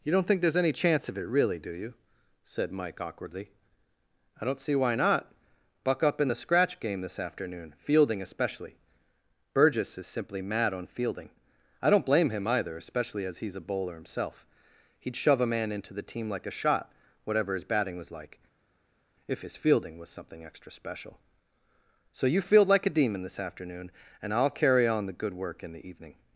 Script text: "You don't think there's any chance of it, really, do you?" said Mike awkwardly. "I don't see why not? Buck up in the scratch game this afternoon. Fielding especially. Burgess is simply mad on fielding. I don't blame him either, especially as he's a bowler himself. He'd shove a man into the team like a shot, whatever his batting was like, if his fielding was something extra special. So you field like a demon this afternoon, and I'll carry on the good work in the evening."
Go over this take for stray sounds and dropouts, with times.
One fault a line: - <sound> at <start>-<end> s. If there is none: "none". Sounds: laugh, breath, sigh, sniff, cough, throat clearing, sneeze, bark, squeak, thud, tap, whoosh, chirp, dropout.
none